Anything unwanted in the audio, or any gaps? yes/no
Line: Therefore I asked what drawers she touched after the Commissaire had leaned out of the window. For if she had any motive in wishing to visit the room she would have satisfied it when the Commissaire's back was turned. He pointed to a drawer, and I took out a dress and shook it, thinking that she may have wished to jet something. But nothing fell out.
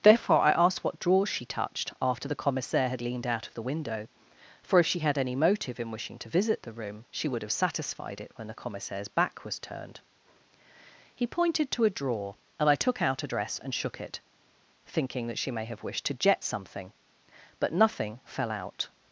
no